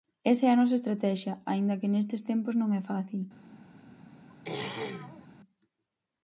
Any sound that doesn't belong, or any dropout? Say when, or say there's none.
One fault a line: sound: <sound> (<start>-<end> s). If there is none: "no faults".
sound: throat clearing (4.3-5.3 s)